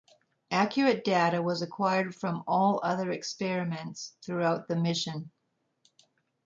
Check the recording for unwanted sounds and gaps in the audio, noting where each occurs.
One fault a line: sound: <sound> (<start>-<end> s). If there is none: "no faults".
no faults